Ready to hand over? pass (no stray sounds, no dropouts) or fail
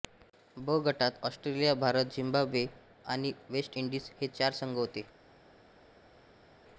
pass